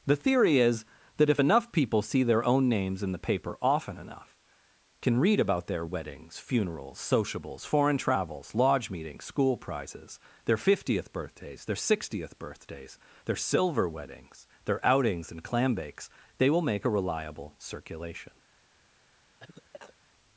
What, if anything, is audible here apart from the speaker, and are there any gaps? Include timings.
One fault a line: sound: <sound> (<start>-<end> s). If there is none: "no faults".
sound: cough (19.4-20.0 s)